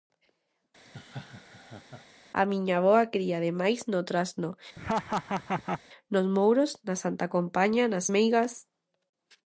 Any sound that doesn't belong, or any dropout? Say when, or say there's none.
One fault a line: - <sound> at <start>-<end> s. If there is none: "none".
- laugh at 0.8-2.1 s
- laugh at 4.8-5.8 s